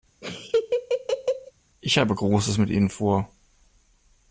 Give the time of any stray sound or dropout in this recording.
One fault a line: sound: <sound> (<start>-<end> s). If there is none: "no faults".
sound: laugh (0.2-1.5 s)